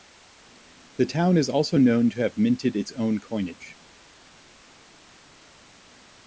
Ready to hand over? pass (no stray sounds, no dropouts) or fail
pass